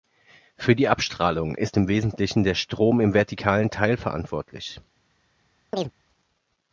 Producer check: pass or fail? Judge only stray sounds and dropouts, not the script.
fail